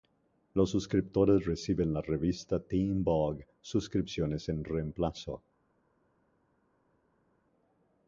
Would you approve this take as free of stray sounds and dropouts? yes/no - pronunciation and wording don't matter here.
yes